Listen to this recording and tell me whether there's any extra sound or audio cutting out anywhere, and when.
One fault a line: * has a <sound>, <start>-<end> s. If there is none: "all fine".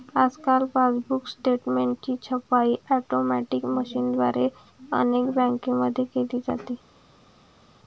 all fine